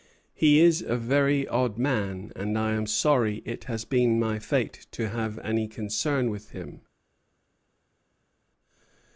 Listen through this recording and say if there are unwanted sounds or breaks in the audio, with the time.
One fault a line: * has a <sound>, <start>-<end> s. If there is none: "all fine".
all fine